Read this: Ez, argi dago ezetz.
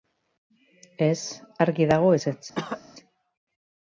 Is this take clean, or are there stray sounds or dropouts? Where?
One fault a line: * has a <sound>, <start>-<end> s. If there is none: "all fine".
* has a cough, 2.6-2.8 s